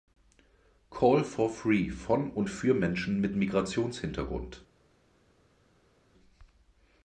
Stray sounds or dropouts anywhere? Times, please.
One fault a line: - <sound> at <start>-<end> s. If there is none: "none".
none